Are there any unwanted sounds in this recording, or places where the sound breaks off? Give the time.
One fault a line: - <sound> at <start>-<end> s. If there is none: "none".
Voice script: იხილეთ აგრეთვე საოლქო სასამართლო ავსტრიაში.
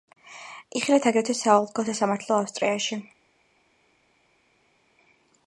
none